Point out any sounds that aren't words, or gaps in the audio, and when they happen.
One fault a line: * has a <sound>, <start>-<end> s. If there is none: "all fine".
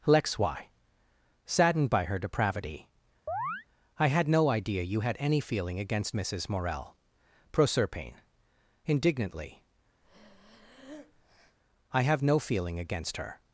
* has a chirp, 3.3-3.7 s
* has a breath, 10.0-11.6 s